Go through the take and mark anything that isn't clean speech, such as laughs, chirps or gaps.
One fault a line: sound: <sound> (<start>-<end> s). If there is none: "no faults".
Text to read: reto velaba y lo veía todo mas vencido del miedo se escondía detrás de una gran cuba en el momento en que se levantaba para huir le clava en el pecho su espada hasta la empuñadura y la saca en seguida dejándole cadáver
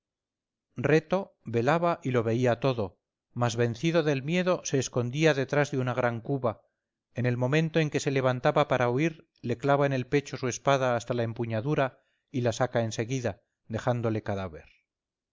no faults